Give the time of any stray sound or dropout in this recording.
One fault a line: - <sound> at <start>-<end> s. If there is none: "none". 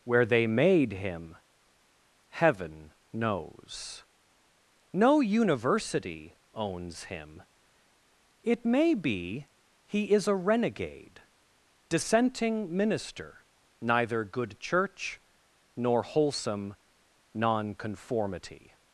none